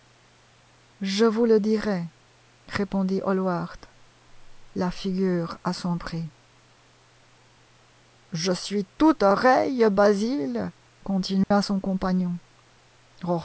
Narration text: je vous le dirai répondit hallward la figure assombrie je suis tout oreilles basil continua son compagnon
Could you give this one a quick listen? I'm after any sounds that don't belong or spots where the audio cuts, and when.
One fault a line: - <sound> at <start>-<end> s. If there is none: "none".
- dropout at 11.4-11.5 s